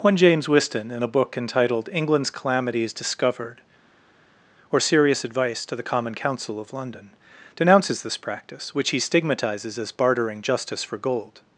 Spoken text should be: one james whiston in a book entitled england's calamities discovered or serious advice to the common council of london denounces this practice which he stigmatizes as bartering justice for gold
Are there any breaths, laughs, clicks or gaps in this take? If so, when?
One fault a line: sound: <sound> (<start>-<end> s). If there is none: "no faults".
no faults